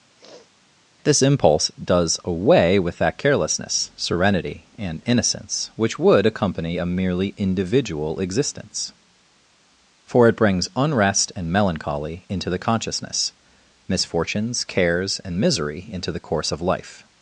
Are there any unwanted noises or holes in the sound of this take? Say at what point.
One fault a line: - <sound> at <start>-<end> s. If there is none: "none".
- sniff at 0.2-0.5 s